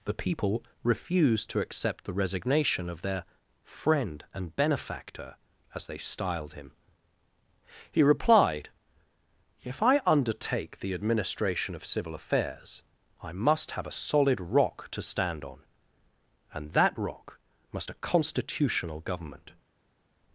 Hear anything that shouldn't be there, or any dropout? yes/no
no